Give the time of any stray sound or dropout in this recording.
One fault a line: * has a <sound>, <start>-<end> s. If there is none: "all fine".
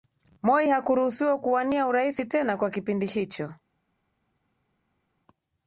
all fine